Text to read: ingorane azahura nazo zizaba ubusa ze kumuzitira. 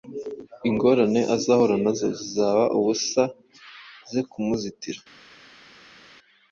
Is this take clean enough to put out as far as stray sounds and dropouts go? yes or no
yes